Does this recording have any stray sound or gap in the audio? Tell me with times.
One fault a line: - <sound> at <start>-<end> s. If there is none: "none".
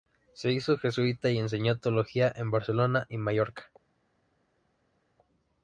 none